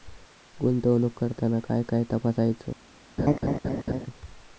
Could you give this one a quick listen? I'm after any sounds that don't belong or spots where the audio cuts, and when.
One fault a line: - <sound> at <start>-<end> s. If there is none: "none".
- laugh at 3.2-4.1 s